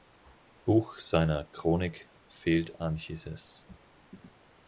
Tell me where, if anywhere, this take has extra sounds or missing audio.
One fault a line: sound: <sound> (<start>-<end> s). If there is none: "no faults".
no faults